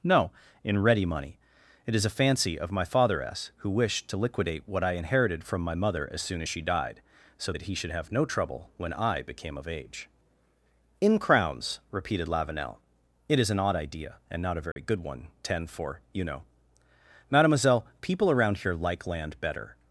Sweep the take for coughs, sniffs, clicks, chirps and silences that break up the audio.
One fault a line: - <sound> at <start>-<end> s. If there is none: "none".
- dropout at 14.7-14.8 s